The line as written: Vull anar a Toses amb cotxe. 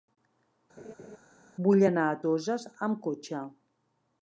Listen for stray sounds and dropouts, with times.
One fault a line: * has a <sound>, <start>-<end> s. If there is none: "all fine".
* has a laugh, 0.8-1.2 s